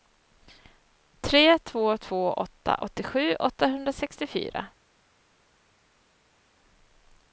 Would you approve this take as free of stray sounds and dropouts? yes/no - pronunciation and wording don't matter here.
yes